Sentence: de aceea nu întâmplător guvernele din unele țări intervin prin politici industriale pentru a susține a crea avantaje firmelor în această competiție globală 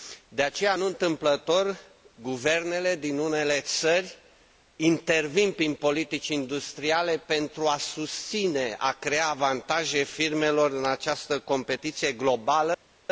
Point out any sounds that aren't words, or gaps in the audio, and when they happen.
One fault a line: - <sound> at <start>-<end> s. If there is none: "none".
none